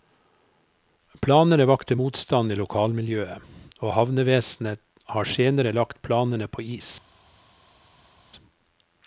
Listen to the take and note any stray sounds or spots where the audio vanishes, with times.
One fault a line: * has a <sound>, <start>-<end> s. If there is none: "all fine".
all fine